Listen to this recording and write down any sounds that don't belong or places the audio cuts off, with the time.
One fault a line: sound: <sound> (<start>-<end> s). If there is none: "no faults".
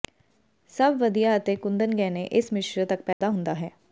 sound: dropout (3.1-3.2 s)